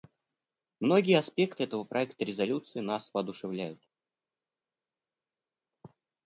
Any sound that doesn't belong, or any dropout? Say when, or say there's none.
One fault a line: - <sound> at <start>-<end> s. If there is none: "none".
none